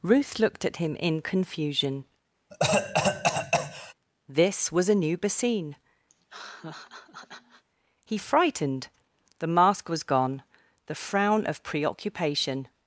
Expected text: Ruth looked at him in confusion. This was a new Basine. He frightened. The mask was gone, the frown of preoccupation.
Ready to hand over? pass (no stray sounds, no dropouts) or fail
fail